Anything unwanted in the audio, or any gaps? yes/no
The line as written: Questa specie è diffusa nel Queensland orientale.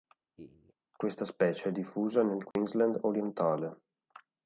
yes